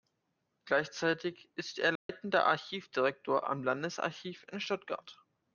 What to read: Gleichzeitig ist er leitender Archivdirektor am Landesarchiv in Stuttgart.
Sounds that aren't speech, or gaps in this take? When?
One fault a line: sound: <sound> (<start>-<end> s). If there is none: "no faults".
sound: dropout (2.0-2.1 s)